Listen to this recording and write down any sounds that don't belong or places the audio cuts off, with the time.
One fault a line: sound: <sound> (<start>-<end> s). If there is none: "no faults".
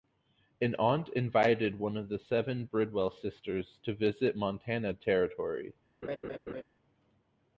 sound: laugh (6.0-6.6 s)